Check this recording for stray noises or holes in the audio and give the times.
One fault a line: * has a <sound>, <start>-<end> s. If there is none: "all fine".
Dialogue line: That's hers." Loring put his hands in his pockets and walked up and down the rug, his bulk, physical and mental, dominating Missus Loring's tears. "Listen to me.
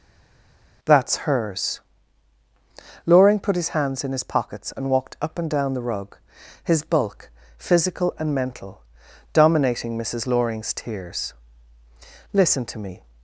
all fine